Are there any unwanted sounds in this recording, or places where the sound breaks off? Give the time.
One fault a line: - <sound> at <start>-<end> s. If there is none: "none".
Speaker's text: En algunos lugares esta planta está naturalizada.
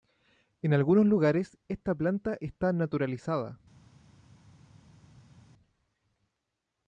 none